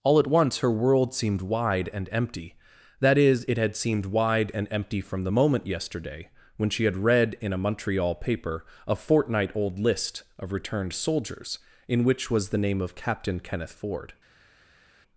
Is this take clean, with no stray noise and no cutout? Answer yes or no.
yes